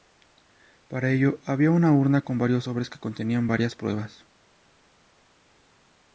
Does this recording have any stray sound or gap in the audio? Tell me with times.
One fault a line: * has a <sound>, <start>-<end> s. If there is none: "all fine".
all fine